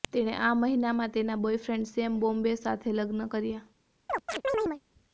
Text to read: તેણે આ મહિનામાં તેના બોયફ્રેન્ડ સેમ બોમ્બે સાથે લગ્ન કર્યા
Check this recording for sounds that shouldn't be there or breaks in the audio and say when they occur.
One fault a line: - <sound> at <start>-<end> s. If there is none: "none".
- chirp at 4.1-4.8 s